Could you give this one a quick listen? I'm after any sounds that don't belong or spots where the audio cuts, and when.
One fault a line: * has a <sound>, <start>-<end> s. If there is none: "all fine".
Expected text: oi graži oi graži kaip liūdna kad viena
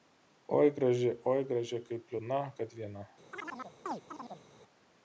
* has a chirp, 3.3-4.5 s